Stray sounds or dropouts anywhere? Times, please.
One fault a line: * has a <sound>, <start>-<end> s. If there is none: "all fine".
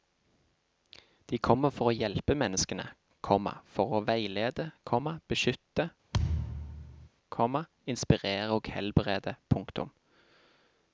* has a thud, 6.1-7.1 s